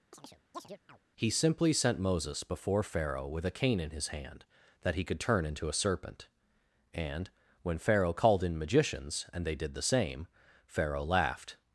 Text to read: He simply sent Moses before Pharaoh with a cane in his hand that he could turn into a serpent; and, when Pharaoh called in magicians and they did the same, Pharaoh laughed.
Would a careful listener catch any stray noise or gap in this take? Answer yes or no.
yes